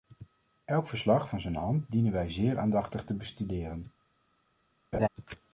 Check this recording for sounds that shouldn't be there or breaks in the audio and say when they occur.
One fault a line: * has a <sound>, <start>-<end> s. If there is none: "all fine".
* has a laugh, 4.9-5.1 s